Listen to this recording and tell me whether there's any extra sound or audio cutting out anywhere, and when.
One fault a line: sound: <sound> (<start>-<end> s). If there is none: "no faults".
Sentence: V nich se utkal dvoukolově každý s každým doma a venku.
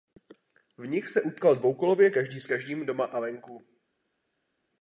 no faults